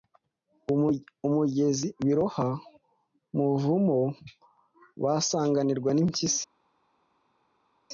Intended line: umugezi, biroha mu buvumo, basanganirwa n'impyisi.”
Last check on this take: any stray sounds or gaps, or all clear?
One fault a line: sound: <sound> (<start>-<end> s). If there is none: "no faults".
no faults